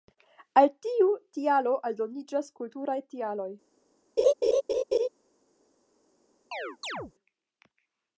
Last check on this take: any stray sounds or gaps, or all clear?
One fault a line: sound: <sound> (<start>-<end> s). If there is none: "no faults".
sound: laugh (4.2-5.1 s)
sound: chirp (6.5-7.1 s)